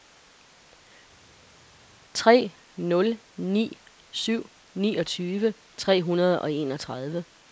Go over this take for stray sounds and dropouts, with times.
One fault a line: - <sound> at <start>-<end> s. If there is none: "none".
none